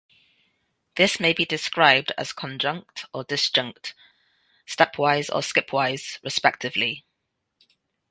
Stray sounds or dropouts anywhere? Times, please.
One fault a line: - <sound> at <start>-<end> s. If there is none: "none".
none